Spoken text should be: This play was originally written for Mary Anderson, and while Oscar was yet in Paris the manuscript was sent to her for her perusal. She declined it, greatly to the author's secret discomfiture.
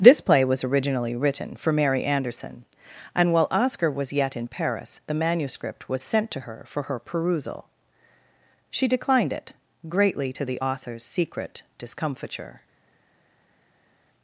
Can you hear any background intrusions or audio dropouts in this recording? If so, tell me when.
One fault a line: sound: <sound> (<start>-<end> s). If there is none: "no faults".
no faults